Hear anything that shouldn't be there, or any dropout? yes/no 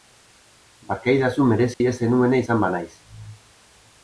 yes